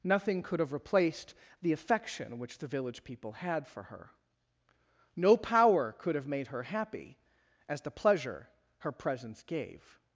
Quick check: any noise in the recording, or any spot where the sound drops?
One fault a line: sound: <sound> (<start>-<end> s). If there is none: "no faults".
no faults